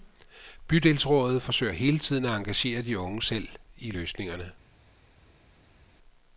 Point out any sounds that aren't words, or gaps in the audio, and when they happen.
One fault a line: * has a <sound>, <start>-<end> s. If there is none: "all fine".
all fine